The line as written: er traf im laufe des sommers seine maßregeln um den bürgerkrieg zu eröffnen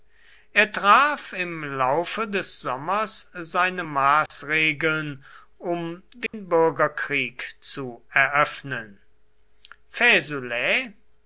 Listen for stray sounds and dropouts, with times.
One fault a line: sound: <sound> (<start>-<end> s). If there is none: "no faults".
sound: dropout (4.3-4.3 s)
sound: dropout (6.3-6.3 s)